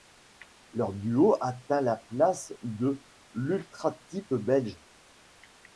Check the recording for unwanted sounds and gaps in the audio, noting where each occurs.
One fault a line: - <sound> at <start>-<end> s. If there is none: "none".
none